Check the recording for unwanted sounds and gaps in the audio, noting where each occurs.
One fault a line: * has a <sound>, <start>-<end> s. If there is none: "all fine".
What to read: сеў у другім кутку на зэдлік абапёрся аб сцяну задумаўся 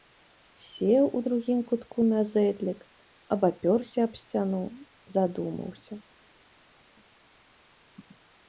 all fine